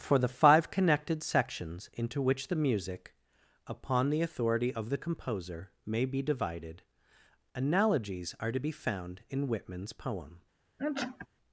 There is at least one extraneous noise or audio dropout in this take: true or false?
true